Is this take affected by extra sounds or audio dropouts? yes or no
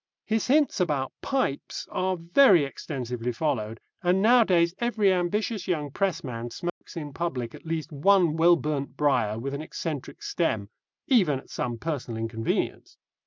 yes